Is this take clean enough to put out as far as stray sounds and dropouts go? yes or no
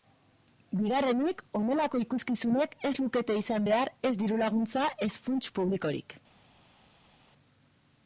yes